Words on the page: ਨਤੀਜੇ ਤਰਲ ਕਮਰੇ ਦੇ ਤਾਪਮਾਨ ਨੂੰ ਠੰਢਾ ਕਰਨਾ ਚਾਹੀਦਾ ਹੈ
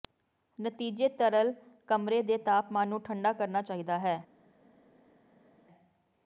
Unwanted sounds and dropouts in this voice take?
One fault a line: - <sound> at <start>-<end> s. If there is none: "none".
none